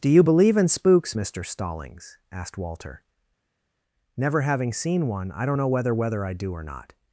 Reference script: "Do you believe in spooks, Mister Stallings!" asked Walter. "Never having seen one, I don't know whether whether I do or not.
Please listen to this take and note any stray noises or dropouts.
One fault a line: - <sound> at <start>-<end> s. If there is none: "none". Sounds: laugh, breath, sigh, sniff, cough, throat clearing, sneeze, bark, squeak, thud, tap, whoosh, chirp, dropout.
none